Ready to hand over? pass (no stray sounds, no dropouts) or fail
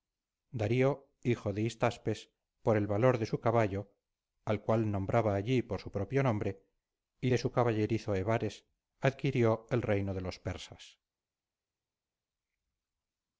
pass